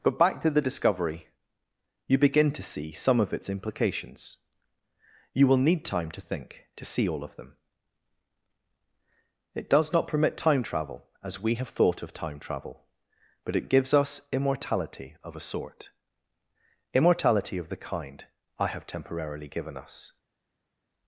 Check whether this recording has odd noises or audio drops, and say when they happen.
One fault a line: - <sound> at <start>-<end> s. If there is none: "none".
none